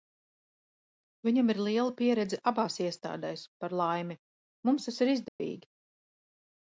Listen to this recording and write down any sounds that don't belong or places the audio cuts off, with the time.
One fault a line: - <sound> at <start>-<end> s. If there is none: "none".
- dropout at 5.3-5.4 s